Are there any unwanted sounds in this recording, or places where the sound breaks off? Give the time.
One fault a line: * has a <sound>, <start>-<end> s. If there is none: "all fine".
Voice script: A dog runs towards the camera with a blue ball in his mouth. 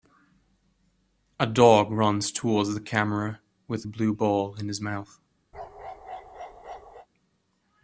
* has a bark, 5.5-7.1 s